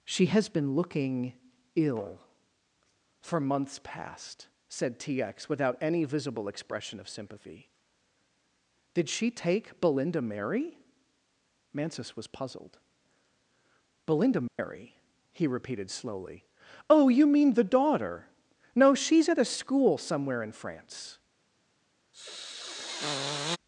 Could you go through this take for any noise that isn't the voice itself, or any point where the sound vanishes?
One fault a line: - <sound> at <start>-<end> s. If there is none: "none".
- dropout at 14.5-14.6 s
- sniff at 22.1-23.6 s